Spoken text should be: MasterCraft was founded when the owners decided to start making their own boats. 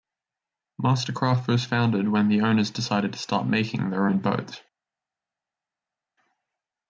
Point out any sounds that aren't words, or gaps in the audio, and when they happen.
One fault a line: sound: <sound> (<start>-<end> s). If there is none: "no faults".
no faults